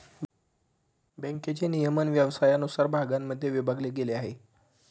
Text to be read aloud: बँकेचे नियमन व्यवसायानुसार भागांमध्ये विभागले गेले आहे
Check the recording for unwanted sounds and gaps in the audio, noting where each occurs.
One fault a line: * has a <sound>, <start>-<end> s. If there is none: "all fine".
all fine